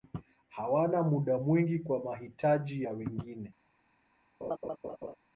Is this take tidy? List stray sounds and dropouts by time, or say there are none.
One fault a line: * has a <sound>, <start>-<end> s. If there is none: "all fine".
* has a laugh, 4.4-5.2 s